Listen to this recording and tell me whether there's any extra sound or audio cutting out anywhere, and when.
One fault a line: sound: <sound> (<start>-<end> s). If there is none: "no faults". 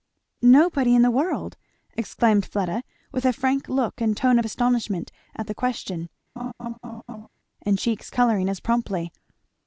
sound: laugh (6.4-7.3 s)